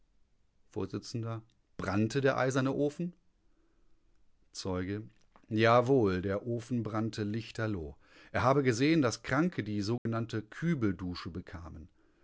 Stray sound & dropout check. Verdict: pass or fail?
fail